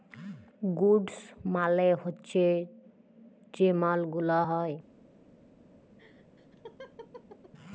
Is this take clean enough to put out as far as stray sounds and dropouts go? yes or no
no